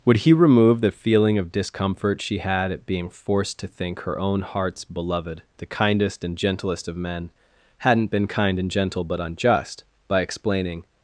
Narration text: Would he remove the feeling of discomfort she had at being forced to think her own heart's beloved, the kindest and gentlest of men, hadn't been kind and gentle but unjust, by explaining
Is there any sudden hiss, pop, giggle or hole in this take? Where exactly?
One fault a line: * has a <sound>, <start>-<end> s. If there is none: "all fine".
all fine